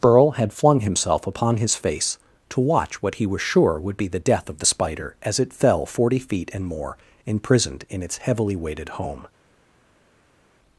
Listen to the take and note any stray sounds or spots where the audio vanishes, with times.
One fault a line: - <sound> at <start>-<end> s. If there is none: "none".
none